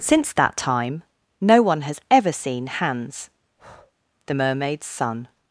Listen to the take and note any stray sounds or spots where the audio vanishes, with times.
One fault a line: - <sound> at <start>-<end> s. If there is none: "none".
- breath at 3.6-3.9 s